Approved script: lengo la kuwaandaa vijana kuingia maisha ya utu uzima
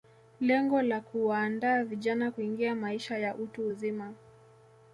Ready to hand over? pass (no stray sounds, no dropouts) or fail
pass